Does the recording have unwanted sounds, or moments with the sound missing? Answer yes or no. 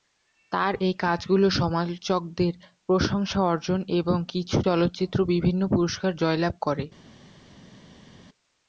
no